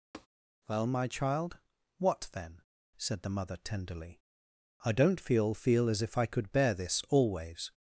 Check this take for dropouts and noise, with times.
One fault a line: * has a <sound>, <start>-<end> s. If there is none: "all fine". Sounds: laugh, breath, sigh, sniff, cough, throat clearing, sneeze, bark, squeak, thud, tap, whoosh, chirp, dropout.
* has a tap, 0.1-0.3 s